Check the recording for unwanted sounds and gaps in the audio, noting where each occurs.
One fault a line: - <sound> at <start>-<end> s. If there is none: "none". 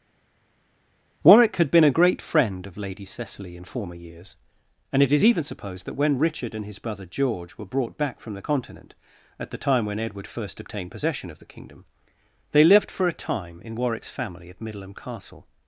none